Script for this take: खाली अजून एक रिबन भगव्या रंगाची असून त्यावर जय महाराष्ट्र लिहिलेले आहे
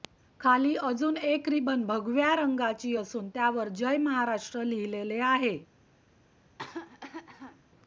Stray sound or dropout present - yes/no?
yes